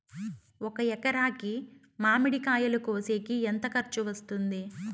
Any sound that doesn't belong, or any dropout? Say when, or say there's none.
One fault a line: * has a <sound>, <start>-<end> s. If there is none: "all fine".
all fine